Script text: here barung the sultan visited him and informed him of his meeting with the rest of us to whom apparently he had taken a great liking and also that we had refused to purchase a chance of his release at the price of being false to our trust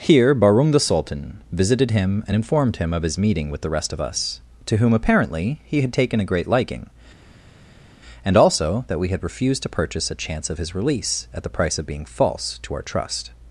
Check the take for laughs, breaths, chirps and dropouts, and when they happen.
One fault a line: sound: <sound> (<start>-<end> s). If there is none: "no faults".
no faults